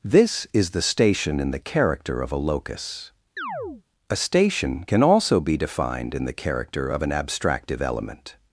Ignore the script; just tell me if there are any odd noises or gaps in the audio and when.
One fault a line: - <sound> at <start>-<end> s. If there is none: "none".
- chirp at 3.4-3.8 s